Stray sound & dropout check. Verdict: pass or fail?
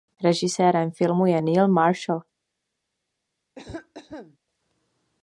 fail